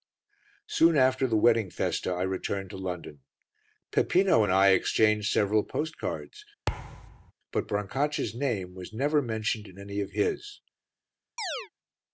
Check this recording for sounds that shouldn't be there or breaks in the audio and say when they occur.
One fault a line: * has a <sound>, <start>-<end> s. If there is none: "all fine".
* has a thud, 6.7-7.3 s
* has a chirp, 11.4-11.7 s